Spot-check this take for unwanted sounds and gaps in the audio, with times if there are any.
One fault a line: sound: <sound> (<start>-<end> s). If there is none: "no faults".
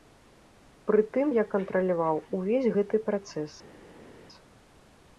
no faults